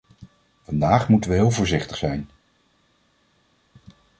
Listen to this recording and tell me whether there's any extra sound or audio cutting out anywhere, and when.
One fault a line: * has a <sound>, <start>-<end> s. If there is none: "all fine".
all fine